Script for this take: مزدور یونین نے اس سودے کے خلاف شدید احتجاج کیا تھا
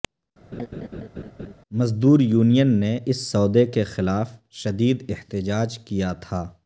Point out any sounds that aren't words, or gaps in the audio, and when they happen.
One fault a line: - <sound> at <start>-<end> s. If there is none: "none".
- laugh at 0.5-1.5 s